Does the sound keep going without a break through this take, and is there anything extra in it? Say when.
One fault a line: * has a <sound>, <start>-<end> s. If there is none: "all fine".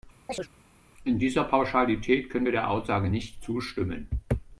* has a chirp, 0.3-0.5 s